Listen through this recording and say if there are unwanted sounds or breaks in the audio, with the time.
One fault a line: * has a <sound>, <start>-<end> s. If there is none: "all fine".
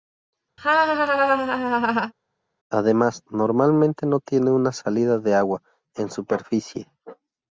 * has a laugh, 0.6-2.1 s